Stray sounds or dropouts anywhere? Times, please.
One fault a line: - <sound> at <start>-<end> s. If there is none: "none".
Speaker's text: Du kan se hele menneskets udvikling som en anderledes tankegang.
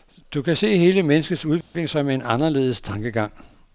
- dropout at 1.6-1.7 s